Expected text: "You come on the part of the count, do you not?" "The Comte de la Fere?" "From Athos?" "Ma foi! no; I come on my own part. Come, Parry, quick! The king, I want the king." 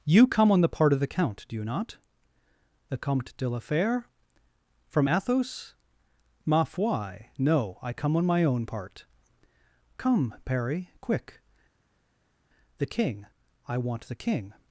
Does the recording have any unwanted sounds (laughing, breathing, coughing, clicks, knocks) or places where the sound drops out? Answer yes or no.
no